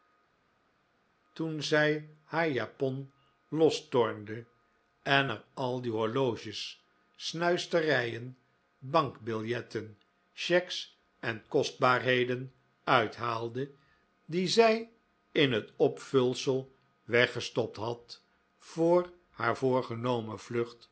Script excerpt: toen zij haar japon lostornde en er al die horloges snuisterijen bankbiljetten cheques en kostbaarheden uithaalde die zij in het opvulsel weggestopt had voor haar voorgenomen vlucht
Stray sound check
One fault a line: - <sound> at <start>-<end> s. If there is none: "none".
none